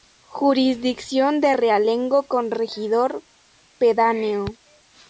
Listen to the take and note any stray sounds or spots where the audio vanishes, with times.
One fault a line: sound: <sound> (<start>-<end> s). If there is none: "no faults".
no faults